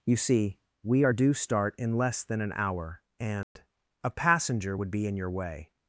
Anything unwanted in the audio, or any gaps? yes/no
yes